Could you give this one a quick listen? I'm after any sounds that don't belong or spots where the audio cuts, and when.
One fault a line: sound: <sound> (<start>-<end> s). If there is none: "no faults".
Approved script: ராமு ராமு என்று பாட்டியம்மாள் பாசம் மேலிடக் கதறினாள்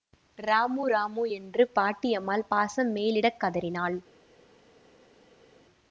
no faults